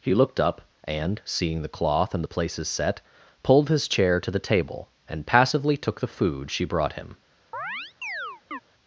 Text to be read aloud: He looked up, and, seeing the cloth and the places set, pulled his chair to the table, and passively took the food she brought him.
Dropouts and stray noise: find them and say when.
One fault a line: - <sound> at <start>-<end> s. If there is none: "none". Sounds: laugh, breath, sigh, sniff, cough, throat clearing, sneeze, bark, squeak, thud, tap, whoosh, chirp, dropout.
- chirp at 7.5-8.6 s